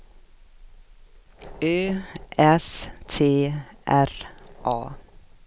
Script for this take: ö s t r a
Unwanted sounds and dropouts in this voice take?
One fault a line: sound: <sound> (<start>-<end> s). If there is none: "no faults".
no faults